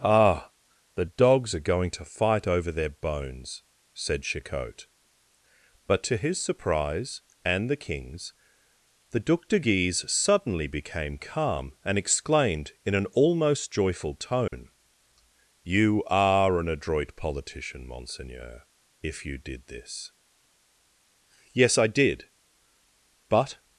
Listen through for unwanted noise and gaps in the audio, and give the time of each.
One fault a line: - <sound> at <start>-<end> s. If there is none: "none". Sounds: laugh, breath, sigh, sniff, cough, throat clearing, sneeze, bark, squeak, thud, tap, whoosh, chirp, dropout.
- dropout at 14.5-14.5 s